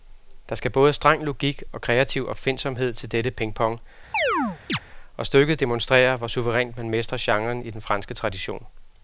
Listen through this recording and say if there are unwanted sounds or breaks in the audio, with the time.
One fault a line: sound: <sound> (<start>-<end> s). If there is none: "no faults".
sound: chirp (4.1-4.8 s)